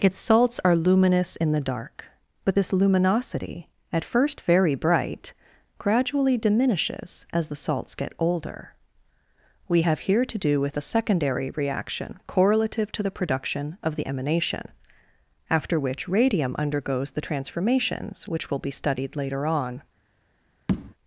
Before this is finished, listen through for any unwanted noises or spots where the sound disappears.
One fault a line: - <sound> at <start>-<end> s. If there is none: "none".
- tap at 20.7-20.9 s